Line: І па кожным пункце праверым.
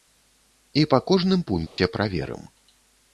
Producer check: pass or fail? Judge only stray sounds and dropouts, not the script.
fail